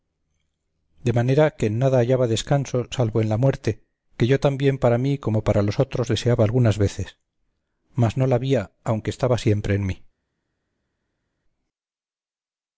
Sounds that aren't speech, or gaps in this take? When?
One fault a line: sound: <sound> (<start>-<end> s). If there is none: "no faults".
no faults